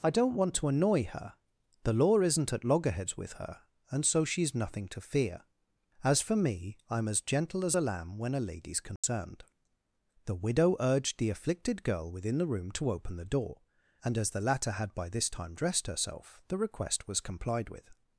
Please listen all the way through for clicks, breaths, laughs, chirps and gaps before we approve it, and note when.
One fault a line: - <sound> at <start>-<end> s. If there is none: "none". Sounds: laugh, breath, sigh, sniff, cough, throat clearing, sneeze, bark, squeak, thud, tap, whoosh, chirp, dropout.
- dropout at 9.0-9.0 s